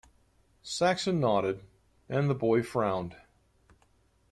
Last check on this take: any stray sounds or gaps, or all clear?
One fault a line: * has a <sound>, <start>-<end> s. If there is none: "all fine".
all fine